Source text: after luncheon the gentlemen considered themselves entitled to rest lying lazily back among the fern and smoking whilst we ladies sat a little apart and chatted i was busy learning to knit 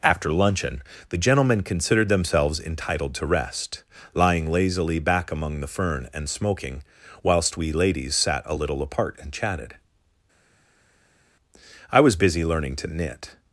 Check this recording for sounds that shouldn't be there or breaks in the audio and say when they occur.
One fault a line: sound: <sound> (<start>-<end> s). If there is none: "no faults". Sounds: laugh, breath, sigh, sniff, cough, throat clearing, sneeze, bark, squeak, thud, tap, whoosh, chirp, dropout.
no faults